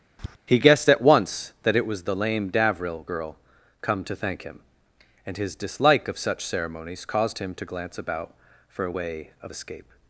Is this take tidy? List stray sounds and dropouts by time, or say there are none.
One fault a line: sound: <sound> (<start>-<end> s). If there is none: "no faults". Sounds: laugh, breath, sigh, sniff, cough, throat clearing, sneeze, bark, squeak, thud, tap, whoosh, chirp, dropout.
sound: tap (0.2-0.4 s)